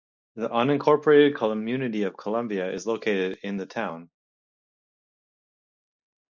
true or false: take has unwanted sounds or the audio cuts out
false